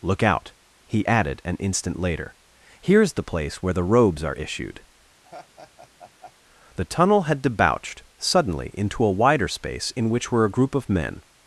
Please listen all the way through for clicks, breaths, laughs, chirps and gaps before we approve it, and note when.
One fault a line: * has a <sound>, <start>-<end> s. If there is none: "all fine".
* has a laugh, 5.2-6.3 s